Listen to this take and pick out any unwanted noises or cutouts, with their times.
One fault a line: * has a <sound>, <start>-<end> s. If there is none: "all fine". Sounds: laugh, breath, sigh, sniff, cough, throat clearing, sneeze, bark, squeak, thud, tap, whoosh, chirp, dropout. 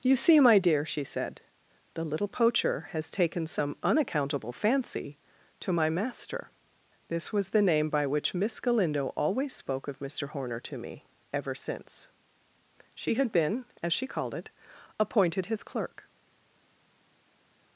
all fine